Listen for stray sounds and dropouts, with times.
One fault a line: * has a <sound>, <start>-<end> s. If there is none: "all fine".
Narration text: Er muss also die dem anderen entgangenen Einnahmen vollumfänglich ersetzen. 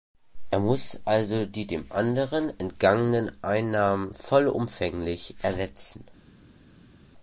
all fine